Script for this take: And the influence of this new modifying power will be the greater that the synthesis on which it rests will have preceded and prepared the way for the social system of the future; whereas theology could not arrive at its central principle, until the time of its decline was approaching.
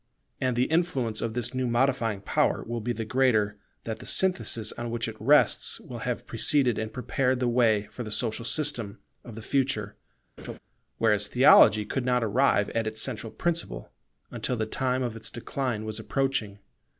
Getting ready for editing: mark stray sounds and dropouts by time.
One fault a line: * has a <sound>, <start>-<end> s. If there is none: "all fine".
* has a laugh, 10.4-10.6 s